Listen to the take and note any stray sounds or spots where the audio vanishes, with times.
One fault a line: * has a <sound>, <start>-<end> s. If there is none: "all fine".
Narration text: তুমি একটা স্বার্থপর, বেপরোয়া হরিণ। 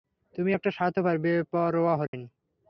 * has a dropout, 2.1-2.1 s